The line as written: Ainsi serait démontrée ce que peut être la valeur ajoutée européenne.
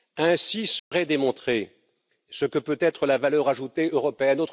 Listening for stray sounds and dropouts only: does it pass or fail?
fail